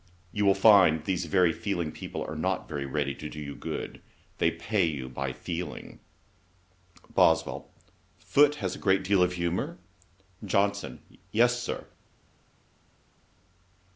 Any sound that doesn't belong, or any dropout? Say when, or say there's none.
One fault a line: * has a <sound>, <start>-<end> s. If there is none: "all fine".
all fine